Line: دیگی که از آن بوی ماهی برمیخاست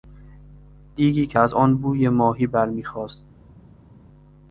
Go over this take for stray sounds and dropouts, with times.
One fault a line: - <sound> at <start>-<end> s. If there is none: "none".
none